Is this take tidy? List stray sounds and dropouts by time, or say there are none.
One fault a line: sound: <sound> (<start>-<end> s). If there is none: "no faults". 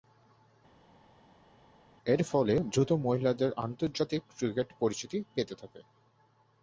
no faults